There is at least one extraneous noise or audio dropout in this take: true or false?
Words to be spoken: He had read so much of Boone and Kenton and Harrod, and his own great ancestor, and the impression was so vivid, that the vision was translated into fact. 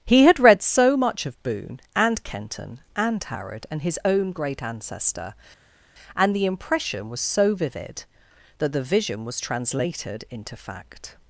false